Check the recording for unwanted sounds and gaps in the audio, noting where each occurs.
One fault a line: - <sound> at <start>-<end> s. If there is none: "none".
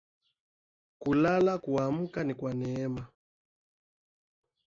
none